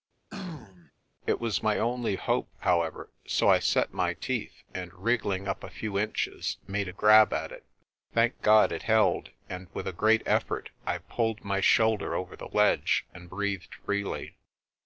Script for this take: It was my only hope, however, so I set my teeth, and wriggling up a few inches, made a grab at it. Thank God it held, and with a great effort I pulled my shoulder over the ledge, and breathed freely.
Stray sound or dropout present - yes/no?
yes